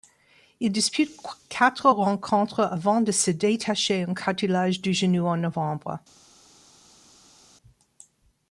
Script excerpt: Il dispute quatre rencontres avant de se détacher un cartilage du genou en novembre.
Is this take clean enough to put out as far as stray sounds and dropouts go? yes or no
yes